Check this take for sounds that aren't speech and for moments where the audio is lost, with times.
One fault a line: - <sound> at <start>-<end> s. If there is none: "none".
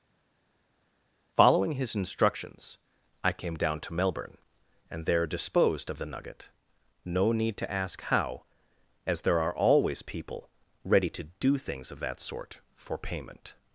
none